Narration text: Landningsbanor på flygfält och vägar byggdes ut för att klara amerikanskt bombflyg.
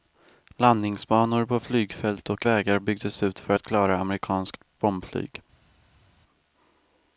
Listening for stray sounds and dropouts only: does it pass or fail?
pass